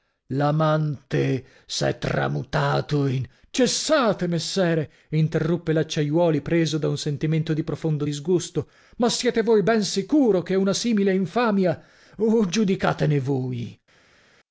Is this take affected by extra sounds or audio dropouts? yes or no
no